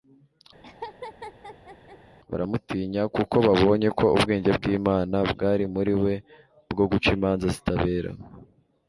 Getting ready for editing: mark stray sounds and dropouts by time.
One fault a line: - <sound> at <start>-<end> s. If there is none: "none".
- laugh at 0.6-2.0 s